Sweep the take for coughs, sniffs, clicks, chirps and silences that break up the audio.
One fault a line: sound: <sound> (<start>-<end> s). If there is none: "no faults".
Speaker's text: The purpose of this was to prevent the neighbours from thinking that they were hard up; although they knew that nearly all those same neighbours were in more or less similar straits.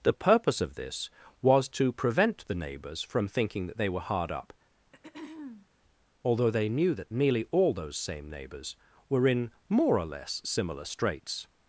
sound: throat clearing (4.9-5.7 s)